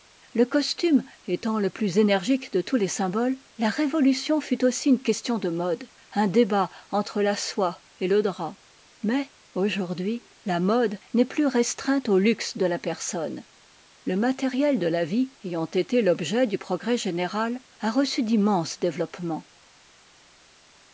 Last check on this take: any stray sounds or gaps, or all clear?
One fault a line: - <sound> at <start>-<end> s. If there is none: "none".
none